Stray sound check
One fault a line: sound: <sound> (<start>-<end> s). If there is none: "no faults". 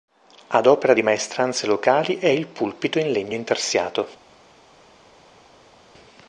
no faults